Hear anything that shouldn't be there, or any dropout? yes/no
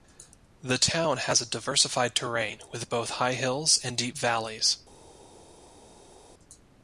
no